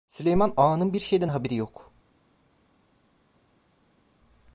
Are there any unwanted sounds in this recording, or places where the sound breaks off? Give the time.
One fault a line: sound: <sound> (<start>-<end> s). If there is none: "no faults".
no faults